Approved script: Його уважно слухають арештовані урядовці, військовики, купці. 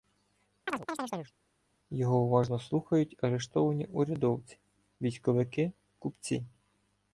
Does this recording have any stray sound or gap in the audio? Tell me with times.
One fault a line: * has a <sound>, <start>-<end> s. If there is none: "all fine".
* has a chirp, 0.7-1.3 s